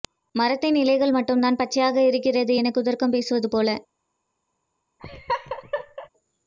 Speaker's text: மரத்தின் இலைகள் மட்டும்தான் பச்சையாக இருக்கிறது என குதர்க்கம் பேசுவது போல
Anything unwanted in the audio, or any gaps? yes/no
yes